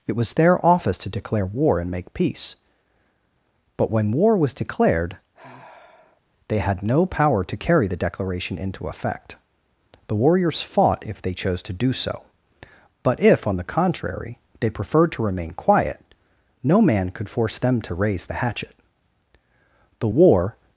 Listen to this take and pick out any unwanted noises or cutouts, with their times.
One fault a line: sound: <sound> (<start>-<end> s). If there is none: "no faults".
sound: sigh (5.3-6.2 s)